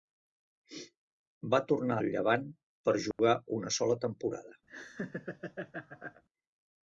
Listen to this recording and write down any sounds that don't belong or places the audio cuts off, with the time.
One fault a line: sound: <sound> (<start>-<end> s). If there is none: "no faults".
sound: dropout (3.1-3.2 s)
sound: laugh (4.7-6.2 s)